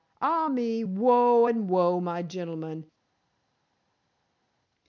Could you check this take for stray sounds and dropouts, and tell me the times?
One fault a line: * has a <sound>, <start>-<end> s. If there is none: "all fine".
all fine